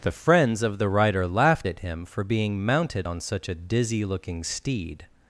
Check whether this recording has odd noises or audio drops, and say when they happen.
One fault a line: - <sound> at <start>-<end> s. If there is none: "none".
none